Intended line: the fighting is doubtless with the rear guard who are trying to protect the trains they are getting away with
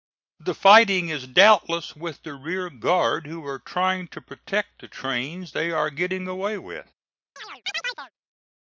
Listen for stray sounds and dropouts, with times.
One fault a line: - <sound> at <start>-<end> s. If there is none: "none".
- chirp at 7.4-8.1 s